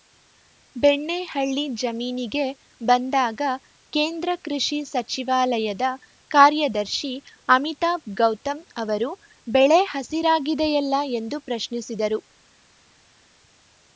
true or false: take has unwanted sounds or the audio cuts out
false